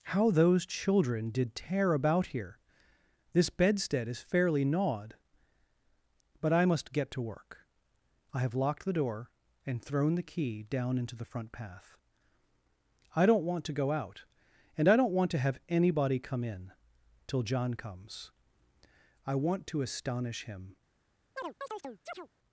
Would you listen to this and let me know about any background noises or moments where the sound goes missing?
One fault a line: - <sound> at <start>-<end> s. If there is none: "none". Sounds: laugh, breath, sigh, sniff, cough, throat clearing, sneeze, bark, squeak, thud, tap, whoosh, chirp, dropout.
- chirp at 21.4-22.3 s